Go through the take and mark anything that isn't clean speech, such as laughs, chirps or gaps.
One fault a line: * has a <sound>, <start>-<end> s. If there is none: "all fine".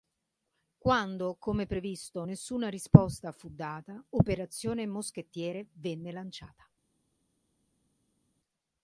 all fine